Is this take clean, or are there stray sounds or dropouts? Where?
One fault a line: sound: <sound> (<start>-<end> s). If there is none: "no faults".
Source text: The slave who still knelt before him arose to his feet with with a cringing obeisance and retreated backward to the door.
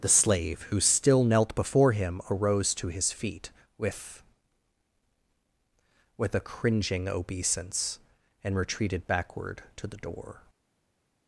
no faults